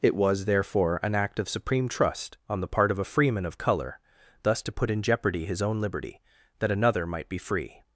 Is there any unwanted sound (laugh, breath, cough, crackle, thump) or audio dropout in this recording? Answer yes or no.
no